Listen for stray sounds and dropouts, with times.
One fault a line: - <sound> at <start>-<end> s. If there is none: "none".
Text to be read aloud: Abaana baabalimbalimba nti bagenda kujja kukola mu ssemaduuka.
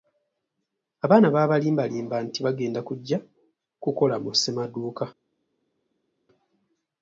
none